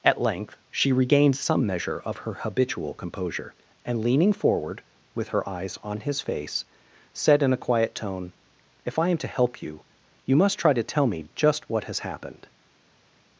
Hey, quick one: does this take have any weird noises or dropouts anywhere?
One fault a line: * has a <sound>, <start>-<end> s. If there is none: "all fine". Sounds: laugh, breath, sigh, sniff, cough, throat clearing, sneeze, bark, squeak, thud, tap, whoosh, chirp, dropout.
all fine